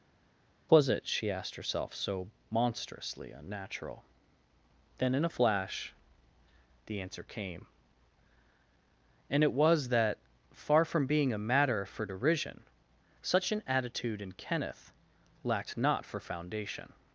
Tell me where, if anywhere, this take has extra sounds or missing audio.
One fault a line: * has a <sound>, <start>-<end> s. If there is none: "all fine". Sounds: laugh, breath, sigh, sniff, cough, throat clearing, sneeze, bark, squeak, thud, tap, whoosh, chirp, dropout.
all fine